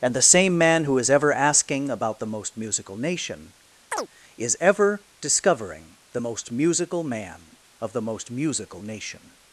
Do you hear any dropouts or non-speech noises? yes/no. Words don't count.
yes